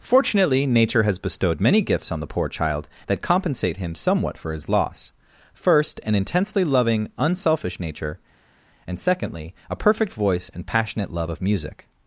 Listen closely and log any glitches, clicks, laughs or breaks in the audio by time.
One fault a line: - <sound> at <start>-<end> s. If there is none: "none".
none